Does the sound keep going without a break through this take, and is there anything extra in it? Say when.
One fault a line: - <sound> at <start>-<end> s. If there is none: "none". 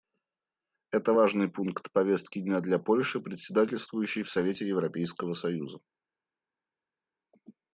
none